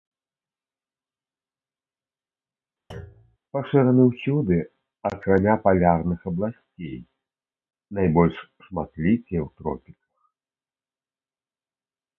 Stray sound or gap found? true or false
true